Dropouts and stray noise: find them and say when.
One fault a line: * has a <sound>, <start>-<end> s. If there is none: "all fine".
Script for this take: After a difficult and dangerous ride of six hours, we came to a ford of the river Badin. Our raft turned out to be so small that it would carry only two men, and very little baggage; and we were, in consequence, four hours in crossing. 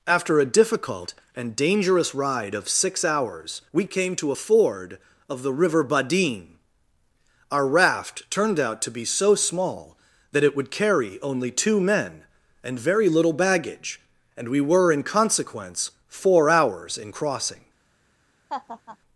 * has a laugh, 18.5-19.0 s